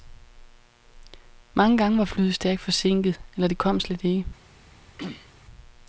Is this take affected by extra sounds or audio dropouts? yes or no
yes